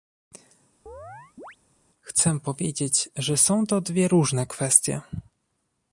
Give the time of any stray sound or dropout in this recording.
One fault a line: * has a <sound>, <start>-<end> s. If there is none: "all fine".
* has a chirp, 0.9-1.6 s